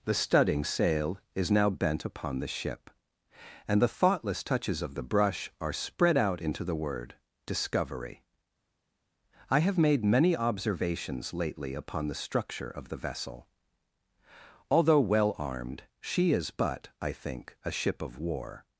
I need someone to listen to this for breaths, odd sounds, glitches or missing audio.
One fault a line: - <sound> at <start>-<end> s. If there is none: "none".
none